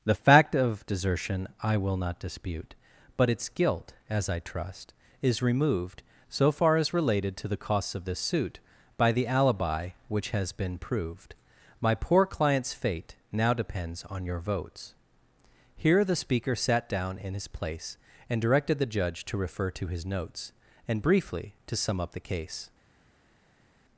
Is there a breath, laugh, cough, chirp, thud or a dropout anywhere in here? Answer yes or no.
no